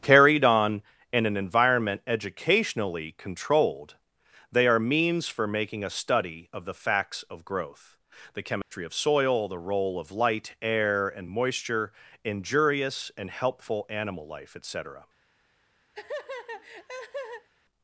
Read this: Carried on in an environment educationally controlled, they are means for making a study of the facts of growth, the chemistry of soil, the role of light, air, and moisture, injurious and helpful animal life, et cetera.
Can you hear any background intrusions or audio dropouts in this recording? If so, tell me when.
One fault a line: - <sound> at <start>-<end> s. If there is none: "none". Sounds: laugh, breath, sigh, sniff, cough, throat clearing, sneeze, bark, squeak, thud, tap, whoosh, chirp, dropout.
- dropout at 8.6-8.7 s
- laugh at 15.9-17.5 s